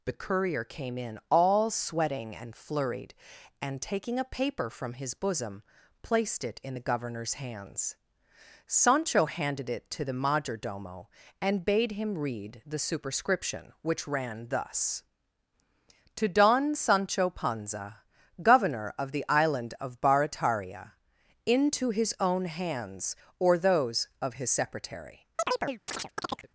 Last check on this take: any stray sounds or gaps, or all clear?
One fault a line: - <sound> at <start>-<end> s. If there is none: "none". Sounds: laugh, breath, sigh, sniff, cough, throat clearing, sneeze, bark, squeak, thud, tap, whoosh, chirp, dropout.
- chirp at 25.4-26.5 s